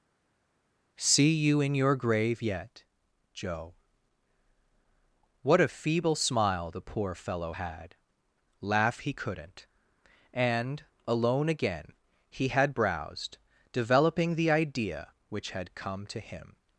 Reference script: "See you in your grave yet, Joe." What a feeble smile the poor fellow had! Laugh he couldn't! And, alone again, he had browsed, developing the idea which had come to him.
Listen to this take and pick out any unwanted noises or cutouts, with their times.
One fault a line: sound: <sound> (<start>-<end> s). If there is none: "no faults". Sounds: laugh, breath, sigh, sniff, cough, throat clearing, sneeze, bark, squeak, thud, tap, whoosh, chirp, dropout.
no faults